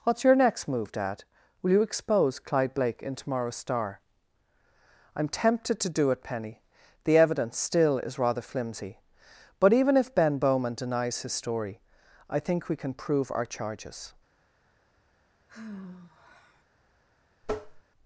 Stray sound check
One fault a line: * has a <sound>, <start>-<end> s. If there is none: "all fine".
* has a sigh, 15.5-16.6 s
* has a tap, 17.4-17.8 s